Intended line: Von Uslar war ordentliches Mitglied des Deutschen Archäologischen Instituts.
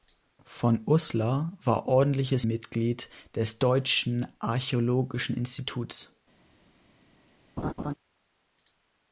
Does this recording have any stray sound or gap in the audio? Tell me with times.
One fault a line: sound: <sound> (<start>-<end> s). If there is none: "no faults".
sound: laugh (7.6-7.9 s)